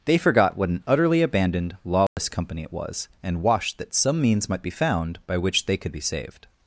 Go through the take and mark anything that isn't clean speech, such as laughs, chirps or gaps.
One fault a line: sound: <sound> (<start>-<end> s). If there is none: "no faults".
sound: dropout (2.1-2.2 s)